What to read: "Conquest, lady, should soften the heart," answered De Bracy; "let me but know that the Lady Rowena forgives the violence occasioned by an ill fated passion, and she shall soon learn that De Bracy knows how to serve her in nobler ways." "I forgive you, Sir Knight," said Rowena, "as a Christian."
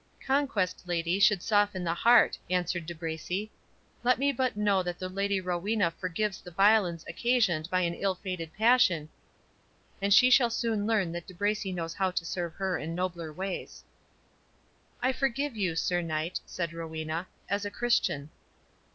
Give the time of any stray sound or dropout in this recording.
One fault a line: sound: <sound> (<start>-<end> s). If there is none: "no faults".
no faults